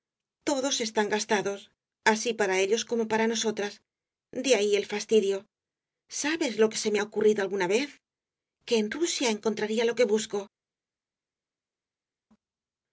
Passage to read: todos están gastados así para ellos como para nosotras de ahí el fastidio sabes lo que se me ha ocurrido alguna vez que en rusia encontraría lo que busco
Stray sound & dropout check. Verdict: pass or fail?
pass